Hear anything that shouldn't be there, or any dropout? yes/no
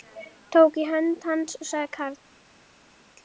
no